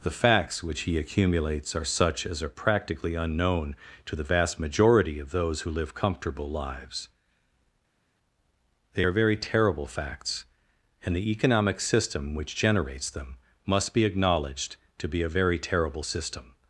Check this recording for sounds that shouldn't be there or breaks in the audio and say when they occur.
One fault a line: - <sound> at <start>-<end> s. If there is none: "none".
none